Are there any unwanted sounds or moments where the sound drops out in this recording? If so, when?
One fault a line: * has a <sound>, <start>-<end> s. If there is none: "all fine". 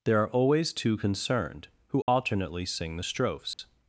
* has a dropout, 2.0-2.1 s
* has a dropout, 3.5-3.6 s